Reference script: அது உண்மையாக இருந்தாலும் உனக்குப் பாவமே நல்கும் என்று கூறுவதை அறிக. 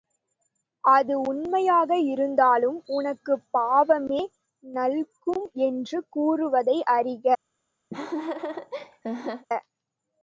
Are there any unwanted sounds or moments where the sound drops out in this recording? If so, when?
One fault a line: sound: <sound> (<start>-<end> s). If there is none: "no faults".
sound: laugh (7.9-9.5 s)